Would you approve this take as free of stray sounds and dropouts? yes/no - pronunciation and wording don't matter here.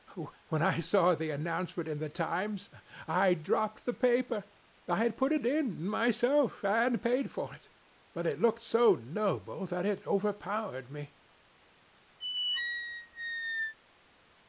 no